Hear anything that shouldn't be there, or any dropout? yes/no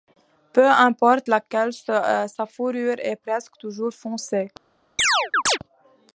yes